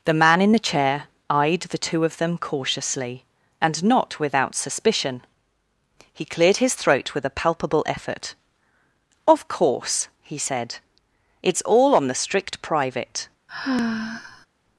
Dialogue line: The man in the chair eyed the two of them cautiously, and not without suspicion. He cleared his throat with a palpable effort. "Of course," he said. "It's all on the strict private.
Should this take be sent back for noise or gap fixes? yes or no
yes